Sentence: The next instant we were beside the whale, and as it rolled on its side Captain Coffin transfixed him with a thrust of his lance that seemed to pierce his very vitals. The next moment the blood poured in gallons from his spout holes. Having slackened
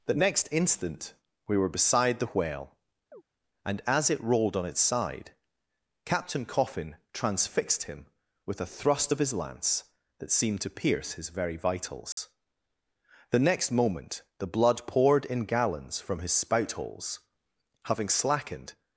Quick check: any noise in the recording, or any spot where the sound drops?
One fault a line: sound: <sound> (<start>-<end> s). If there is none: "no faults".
sound: chirp (3.1-3.2 s)
sound: dropout (12.1-12.2 s)